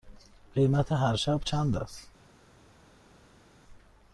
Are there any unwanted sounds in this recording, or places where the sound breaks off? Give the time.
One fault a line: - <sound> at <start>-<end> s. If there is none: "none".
none